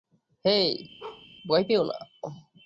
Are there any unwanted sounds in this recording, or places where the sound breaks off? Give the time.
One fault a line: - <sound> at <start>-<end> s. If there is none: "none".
- bark at 1.0-1.3 s